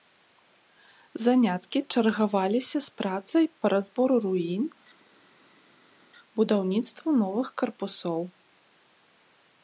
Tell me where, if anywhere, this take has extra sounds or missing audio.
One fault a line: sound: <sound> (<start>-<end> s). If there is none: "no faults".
no faults